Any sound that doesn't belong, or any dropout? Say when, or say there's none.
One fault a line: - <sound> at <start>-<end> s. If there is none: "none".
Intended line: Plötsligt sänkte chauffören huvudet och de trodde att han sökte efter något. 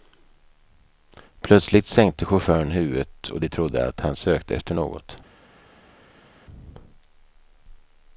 none